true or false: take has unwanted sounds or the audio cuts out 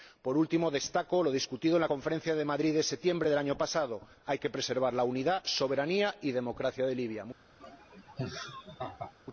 true